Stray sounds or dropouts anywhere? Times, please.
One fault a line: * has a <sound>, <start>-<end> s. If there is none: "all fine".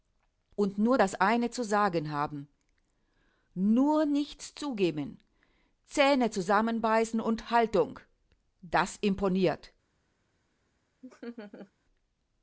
* has a laugh, 11.0-11.7 s